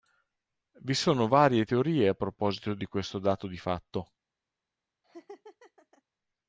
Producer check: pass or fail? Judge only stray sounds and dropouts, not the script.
fail